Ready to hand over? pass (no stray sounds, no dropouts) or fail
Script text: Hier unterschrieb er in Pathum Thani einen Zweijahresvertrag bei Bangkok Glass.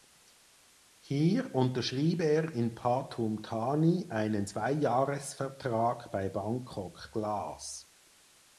pass